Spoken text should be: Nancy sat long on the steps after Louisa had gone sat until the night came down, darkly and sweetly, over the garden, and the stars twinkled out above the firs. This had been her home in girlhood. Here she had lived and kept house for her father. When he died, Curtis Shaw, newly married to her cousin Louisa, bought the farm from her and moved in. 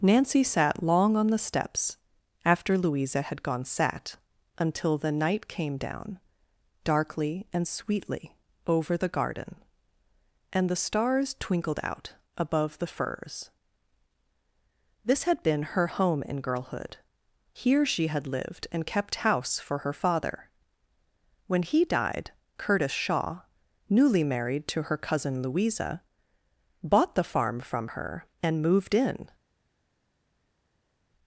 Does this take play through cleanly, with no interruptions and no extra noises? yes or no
yes